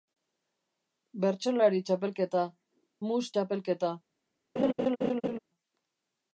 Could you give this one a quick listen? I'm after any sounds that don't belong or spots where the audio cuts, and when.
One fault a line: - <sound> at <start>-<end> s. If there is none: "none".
- laugh at 4.6-5.4 s